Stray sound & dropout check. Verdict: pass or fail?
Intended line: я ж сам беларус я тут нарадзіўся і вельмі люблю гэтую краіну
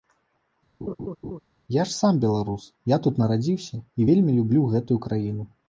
fail